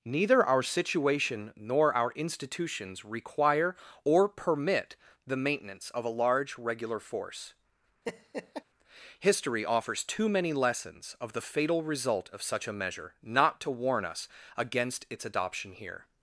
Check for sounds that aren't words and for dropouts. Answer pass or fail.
fail